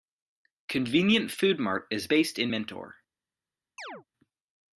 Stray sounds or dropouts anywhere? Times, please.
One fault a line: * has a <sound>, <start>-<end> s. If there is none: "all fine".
* has a chirp, 3.8-4.0 s